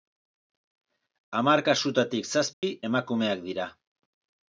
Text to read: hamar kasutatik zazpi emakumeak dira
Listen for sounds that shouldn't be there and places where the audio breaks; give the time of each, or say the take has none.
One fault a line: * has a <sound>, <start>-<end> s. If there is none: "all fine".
* has a dropout, 2.5-2.6 s